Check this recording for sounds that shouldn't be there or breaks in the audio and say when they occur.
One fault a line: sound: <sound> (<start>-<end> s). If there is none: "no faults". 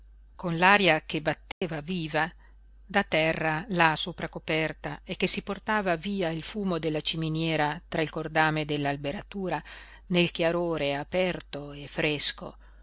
sound: dropout (1.5-1.6 s)